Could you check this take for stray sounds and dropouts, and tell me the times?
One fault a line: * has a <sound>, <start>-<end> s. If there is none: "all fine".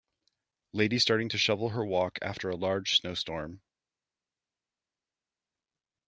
all fine